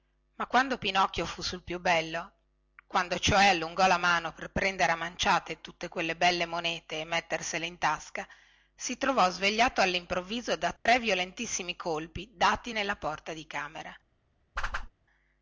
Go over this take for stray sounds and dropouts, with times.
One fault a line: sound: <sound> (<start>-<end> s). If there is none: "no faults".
sound: dropout (10.8-10.9 s)
sound: whoosh (14.6-14.9 s)